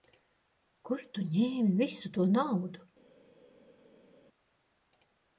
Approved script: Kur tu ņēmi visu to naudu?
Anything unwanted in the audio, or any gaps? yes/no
no